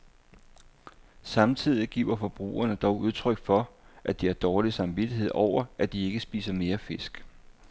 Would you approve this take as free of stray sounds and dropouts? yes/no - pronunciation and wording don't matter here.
yes